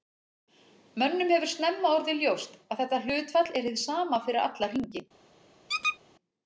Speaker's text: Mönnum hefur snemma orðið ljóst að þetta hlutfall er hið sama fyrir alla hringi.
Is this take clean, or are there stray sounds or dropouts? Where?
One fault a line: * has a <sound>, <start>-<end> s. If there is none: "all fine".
* has a squeak, 5.7-6.0 s